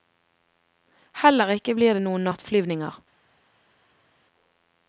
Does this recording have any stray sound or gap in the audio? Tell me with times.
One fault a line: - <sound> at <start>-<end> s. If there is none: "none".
none